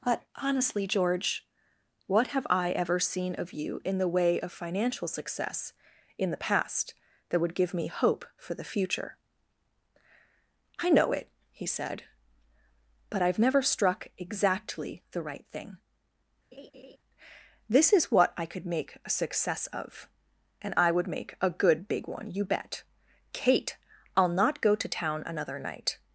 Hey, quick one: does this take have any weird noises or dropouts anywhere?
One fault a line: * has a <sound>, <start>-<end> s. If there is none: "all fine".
* has a laugh, 16.5-17.0 s